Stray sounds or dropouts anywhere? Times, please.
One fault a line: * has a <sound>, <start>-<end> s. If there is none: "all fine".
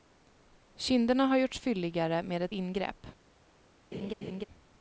* has a laugh, 3.9-4.5 s